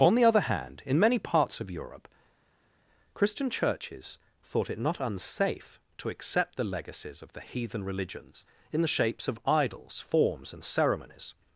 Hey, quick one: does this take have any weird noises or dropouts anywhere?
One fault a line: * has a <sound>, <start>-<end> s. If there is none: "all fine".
all fine